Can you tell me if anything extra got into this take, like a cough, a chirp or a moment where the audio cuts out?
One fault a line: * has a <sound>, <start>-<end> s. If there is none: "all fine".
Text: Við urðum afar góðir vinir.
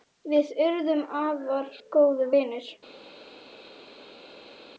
all fine